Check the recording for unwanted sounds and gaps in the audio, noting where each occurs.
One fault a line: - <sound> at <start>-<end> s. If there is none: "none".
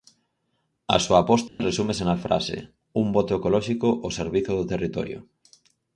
- dropout at 1.5-1.6 s